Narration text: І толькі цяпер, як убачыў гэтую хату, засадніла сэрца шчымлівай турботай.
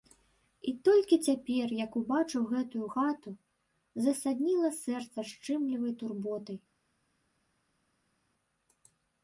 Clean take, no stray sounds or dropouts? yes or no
yes